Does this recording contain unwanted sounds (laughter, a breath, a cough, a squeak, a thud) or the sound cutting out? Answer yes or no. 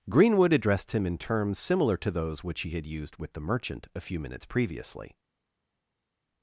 no